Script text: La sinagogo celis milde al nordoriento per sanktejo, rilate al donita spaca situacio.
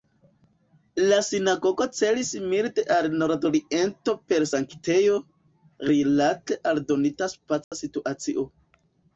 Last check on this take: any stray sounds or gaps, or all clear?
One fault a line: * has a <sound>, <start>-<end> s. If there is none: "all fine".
* has a dropout, 7.6-7.7 s